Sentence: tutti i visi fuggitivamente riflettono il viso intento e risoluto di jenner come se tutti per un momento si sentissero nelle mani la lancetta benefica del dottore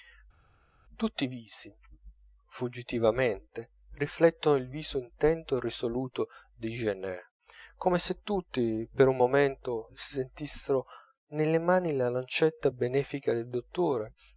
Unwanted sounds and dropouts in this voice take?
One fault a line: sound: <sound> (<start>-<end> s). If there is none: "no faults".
no faults